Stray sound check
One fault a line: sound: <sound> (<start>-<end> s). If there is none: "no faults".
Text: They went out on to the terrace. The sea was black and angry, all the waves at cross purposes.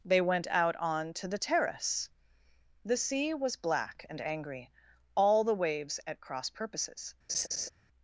sound: laugh (7.3-7.7 s)